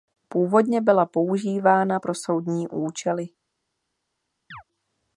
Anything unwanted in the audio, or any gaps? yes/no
yes